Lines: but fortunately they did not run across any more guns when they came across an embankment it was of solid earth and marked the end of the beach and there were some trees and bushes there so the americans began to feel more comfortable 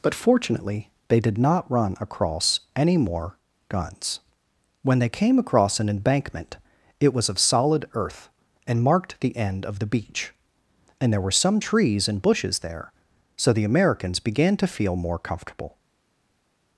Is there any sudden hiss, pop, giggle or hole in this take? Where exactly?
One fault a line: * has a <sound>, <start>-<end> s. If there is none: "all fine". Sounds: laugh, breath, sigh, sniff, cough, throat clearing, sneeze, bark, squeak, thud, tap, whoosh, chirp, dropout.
all fine